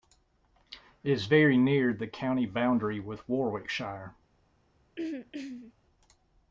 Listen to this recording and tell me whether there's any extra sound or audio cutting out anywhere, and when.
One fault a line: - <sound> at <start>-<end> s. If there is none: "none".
- throat clearing at 5.0-5.7 s